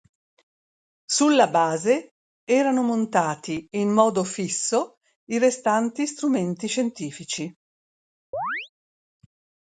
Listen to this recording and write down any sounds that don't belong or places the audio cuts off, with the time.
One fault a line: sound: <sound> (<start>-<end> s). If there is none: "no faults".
sound: chirp (8.3-8.7 s)